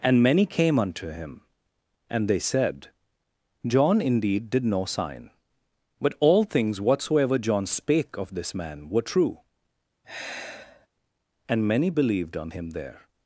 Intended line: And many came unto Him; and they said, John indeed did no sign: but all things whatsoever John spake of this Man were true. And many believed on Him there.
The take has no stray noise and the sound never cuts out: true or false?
false